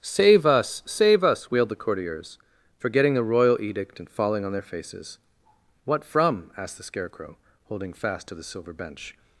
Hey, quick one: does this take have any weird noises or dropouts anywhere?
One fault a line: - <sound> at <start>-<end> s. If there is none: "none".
none